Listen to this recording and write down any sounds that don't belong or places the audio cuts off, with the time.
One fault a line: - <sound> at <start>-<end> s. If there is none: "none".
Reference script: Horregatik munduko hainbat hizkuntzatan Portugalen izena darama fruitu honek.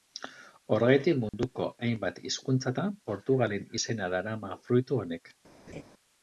- dropout at 1.3-1.3 s
- laugh at 5.7-5.8 s